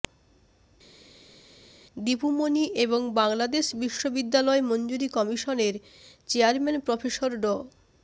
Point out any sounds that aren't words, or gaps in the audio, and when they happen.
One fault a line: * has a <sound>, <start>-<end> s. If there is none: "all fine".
all fine